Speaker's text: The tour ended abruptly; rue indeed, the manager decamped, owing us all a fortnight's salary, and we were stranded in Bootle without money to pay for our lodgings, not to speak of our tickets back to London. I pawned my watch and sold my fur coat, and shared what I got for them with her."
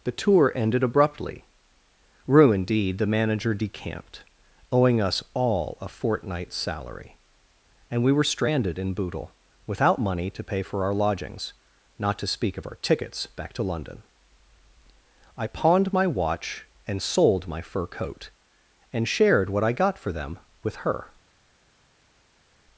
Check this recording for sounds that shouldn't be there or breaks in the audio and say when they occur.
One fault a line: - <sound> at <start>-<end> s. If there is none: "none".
none